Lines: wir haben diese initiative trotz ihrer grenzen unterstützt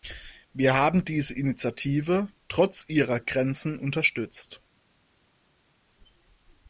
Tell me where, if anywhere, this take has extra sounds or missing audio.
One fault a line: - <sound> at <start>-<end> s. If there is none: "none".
none